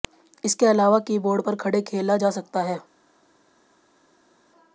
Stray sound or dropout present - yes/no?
no